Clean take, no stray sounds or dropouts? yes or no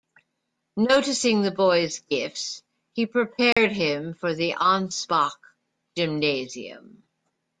no